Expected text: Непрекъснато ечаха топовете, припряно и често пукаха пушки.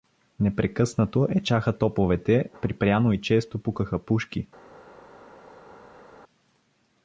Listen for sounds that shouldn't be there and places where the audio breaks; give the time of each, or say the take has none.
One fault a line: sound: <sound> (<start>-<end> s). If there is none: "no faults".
no faults